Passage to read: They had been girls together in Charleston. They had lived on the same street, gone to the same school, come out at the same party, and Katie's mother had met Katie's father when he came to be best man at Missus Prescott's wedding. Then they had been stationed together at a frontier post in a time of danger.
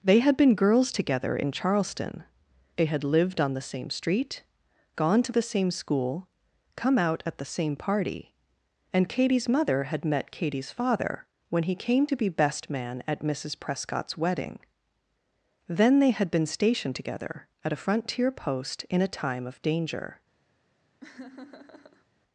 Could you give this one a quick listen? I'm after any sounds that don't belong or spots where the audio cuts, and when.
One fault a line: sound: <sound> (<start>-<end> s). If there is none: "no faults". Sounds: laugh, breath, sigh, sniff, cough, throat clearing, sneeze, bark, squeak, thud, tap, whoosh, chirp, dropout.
sound: laugh (21.0-22.1 s)